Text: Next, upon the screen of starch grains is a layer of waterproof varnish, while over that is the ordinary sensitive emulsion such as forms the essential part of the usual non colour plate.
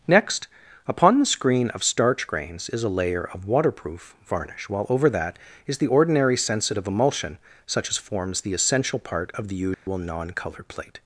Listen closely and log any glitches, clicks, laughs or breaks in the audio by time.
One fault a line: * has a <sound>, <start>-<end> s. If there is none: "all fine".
* has a dropout, 9.7-9.9 s